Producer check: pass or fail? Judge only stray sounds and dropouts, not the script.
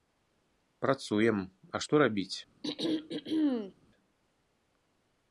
fail